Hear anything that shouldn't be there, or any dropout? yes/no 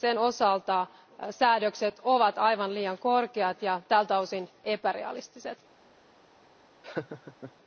yes